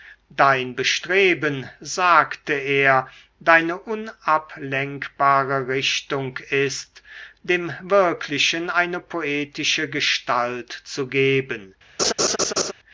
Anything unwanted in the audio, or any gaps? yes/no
yes